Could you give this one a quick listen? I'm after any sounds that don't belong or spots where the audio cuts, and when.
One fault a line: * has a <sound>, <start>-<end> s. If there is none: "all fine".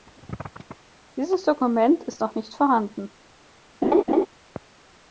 * has a laugh, 3.8-4.3 s